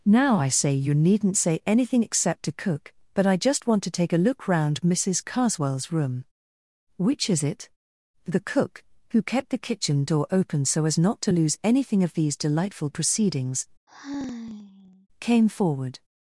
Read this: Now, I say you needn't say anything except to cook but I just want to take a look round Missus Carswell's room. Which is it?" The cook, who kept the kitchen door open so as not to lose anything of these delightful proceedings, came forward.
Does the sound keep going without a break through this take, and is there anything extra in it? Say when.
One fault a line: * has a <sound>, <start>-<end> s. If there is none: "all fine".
* has a sigh, 13.9-15.1 s